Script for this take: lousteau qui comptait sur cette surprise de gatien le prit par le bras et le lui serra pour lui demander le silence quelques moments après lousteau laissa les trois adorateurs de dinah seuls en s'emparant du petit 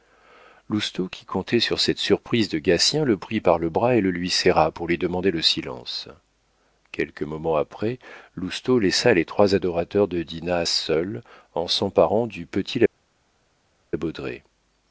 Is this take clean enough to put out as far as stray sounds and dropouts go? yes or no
yes